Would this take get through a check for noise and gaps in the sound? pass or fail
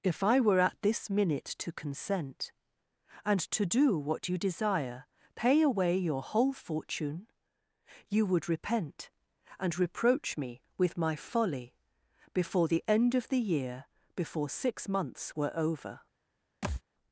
fail